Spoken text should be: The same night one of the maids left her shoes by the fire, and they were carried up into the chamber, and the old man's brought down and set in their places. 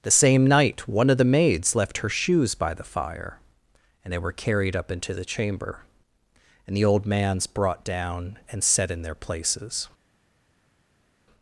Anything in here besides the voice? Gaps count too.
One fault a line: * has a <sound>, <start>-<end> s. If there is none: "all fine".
all fine